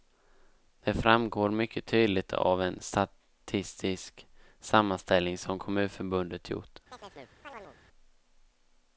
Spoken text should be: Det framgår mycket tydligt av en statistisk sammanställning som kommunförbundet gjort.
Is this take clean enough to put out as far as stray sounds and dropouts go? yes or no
no